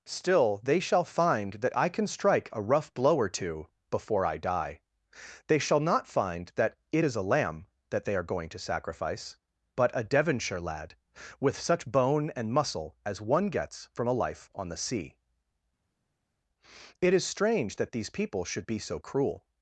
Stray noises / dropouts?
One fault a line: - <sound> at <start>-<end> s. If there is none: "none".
none